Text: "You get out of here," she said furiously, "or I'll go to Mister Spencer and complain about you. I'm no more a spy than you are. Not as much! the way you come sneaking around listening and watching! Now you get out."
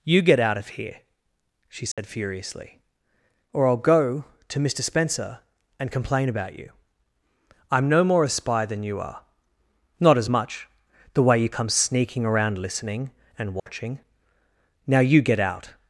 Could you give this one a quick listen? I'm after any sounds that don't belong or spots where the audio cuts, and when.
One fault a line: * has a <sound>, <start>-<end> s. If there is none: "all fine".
* has a dropout, 1.9-2.0 s
* has a dropout, 13.6-13.7 s